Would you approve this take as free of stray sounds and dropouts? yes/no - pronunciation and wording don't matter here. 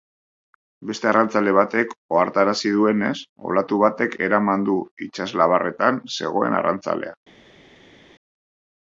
yes